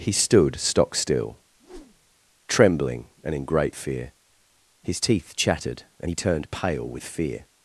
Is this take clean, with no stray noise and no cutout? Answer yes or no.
no